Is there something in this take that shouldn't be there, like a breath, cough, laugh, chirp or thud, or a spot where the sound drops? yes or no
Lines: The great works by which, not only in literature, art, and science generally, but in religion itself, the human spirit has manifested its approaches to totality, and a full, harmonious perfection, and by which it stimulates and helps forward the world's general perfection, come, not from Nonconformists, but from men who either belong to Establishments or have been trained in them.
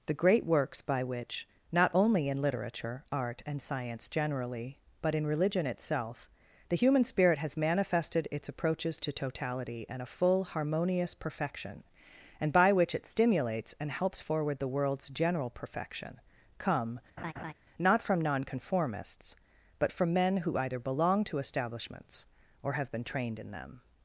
yes